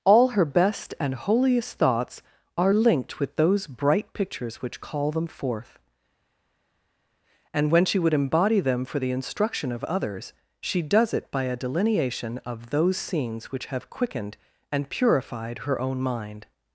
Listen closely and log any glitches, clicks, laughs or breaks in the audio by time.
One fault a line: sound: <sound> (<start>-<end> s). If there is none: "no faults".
no faults